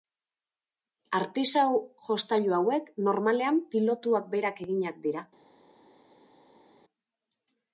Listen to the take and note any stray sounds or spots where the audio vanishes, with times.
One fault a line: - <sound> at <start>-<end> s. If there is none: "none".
none